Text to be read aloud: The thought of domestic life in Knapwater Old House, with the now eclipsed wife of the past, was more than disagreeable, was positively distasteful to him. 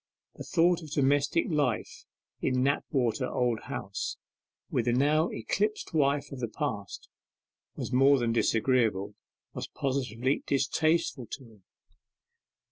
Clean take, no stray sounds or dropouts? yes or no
yes